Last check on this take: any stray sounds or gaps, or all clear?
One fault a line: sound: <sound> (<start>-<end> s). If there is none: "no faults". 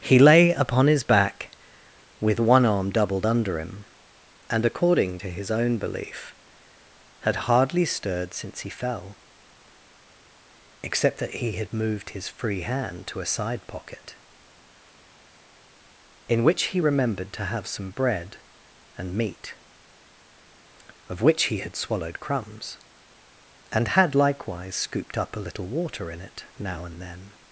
no faults